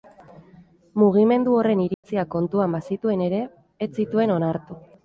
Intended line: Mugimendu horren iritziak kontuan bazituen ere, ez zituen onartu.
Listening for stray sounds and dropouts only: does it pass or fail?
fail